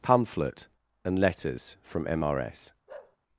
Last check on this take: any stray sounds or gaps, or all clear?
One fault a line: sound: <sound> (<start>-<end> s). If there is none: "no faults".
sound: bark (2.9-3.2 s)